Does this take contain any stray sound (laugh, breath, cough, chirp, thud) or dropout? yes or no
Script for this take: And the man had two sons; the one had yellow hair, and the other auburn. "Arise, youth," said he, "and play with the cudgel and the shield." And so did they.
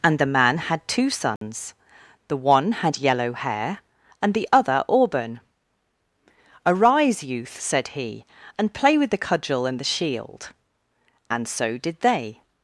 yes